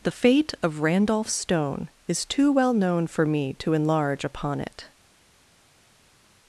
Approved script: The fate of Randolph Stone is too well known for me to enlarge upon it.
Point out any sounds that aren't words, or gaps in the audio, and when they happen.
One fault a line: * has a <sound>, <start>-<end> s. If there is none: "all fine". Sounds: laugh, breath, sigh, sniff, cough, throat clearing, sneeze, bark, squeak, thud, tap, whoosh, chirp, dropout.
all fine